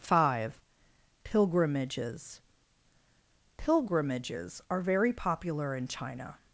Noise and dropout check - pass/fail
pass